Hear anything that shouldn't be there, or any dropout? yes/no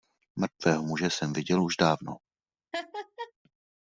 yes